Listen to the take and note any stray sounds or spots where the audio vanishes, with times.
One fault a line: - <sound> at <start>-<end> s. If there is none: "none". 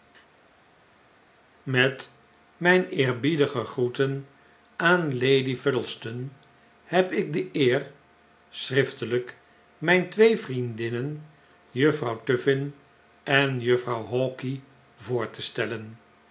none